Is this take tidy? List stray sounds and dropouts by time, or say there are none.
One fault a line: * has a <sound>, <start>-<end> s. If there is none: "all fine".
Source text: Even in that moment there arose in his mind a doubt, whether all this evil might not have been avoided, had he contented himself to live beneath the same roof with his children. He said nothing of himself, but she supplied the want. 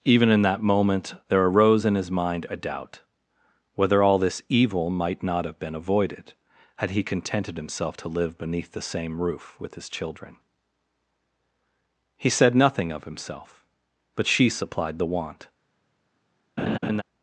* has a laugh, 16.6-17.0 s